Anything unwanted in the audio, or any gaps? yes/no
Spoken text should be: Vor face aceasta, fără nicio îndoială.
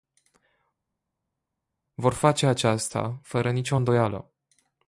no